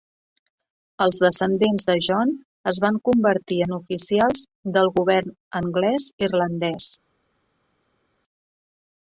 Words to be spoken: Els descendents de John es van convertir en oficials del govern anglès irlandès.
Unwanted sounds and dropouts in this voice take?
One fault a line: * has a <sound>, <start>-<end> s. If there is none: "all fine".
all fine